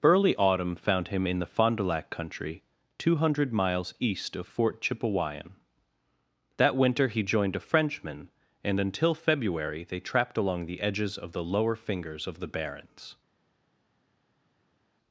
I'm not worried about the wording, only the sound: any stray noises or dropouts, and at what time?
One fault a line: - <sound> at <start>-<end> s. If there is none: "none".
none